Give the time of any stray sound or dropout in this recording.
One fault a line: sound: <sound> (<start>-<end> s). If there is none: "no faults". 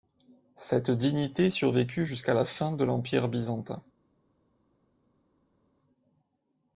no faults